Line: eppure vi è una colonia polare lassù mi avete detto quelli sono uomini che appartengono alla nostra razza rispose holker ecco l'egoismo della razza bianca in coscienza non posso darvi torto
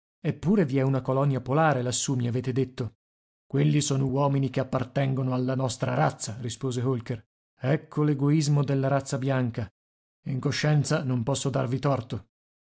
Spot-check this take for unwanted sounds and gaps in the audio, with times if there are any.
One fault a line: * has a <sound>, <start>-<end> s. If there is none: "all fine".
all fine